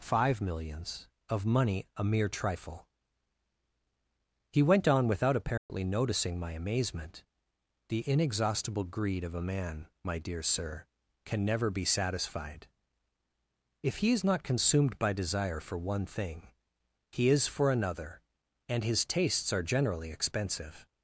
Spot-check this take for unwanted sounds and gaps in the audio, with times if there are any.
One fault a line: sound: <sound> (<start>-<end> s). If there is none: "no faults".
sound: dropout (5.6-5.7 s)